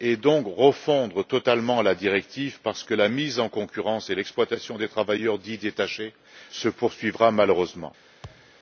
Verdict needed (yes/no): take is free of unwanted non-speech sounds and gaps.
no